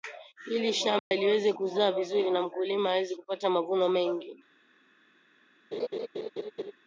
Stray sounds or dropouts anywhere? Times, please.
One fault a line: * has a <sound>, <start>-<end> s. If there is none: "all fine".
* has a dropout, 1.0-1.1 s
* has a laugh, 5.7-6.7 s